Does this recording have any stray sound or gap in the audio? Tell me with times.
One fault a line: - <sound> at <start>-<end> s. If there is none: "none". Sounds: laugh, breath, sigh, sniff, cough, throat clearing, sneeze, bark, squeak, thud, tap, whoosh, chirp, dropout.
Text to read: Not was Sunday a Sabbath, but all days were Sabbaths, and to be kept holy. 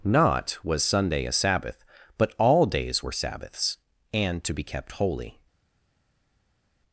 none